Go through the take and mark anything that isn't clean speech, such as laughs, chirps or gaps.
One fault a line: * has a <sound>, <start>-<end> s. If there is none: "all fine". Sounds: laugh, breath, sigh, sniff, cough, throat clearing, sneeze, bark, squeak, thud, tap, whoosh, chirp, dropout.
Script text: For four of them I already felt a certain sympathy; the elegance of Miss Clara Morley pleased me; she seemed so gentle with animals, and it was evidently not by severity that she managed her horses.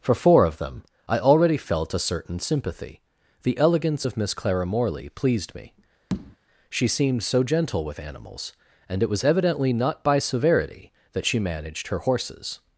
* has a tap, 6.1-6.4 s